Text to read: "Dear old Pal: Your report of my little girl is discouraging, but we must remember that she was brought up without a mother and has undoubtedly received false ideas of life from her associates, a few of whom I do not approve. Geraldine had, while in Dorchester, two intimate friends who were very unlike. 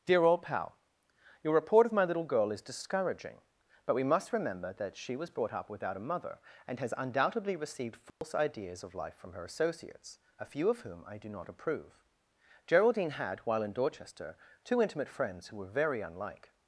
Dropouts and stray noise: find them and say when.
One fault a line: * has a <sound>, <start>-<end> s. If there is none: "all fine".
* has a dropout, 8.1-8.2 s